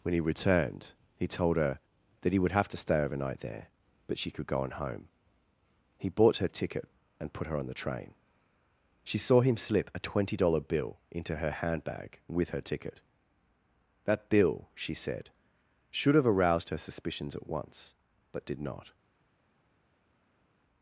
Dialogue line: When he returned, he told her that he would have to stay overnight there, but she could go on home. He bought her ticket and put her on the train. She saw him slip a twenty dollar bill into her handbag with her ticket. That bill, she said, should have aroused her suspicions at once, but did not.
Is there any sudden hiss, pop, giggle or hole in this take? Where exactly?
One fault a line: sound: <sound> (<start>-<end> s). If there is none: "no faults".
no faults